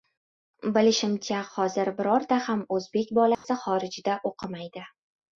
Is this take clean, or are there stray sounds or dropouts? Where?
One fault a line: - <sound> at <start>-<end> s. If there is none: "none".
- dropout at 3.3-3.4 s